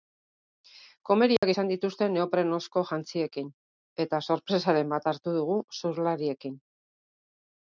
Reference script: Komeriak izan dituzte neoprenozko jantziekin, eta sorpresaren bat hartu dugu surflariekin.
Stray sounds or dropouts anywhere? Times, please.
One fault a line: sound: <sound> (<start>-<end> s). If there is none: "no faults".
sound: dropout (1.4-1.4 s)